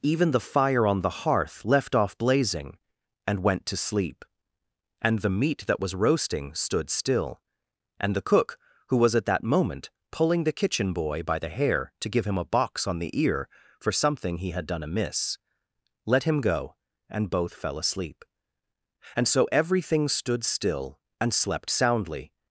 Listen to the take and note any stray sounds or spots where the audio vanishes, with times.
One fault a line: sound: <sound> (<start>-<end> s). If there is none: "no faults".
no faults